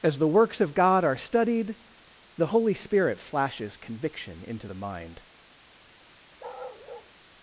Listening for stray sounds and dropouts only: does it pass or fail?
fail